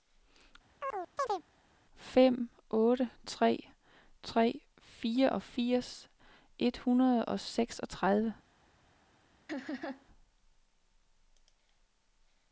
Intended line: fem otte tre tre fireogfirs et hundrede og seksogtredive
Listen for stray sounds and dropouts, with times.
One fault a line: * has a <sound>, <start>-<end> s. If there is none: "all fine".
* has a chirp, 0.8-1.4 s
* has a laugh, 9.5-10.1 s